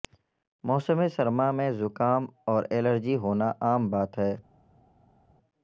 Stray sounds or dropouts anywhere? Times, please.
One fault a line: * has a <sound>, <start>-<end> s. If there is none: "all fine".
all fine